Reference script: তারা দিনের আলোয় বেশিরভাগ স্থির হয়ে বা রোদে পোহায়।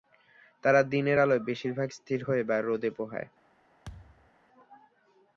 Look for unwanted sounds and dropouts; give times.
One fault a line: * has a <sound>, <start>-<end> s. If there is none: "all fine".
* has a thud, 3.8-4.3 s